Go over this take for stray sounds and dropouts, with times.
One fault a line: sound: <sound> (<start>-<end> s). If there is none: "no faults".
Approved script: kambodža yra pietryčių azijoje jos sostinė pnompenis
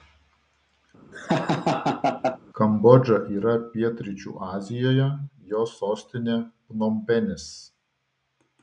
sound: laugh (1.1-2.4 s)